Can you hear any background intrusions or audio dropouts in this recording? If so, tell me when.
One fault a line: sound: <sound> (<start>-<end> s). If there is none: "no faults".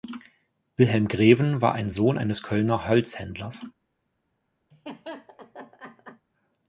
sound: laugh (4.7-6.3 s)